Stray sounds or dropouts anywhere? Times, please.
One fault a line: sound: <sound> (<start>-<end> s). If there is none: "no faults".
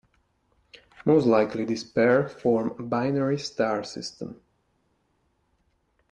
no faults